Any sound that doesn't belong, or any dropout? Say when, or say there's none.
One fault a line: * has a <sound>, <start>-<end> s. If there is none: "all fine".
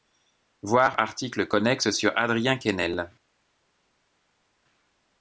all fine